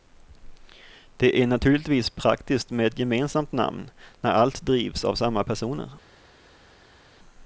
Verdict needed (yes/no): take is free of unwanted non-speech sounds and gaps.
yes